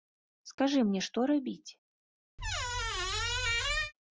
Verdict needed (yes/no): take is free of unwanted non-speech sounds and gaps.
no